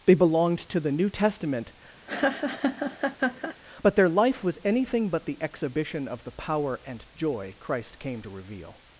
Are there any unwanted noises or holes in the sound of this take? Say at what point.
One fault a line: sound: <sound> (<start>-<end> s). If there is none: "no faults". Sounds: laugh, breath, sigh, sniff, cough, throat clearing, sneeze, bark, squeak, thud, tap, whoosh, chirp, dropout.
sound: laugh (2.1-3.6 s)